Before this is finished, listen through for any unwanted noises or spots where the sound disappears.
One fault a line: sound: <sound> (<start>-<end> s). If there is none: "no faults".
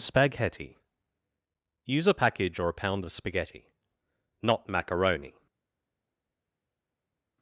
no faults